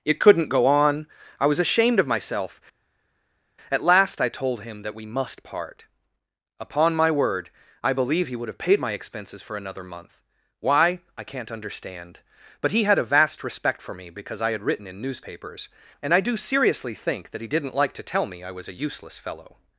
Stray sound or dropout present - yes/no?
no